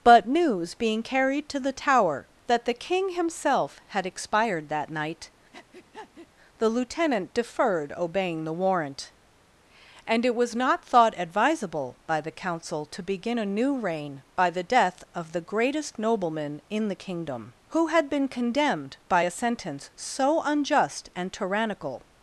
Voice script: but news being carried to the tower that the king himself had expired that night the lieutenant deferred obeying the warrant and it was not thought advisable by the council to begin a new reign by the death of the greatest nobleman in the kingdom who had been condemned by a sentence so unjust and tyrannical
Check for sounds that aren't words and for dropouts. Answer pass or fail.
fail